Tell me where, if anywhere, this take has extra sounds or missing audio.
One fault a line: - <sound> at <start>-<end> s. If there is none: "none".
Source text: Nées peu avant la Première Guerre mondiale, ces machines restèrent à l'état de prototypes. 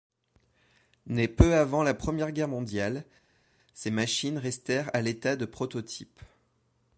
none